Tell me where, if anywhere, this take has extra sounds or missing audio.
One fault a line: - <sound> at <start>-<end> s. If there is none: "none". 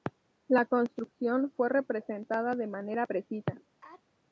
- sneeze at 3.8-4.0 s